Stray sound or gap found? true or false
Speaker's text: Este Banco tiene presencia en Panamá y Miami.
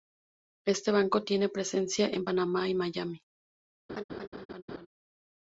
true